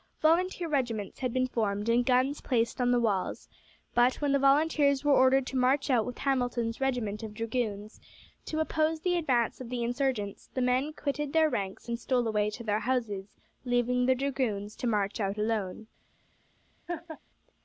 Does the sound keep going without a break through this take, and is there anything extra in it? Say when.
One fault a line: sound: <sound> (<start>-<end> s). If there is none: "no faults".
sound: laugh (16.9-17.2 s)